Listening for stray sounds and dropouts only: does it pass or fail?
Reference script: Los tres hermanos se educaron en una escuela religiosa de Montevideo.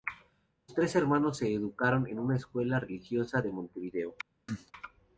fail